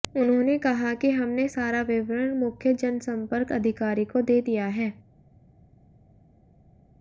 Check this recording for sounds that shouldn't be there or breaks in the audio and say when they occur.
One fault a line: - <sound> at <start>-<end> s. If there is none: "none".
none